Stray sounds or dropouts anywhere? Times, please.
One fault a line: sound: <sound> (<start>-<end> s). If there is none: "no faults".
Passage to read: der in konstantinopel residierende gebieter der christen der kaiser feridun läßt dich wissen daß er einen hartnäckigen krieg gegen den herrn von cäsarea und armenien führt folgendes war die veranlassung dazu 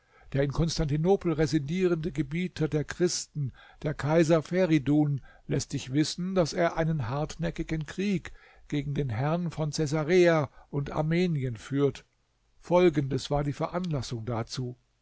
no faults